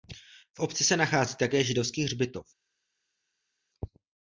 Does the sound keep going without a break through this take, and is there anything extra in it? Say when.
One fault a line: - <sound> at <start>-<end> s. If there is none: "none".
none